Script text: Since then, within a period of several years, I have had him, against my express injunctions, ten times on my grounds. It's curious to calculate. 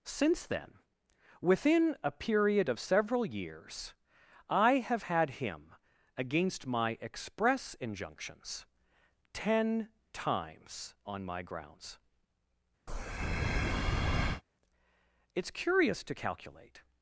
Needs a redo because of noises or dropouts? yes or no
yes